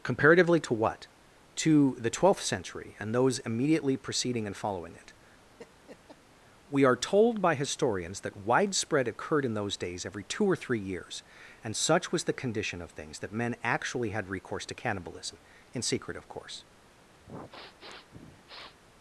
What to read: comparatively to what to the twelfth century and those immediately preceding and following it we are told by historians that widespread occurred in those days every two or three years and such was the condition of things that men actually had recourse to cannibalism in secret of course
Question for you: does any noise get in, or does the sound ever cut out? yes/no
yes